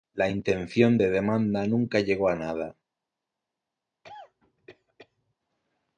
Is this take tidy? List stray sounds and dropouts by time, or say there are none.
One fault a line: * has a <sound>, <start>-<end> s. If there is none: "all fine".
* has a cough, 4.0-5.4 s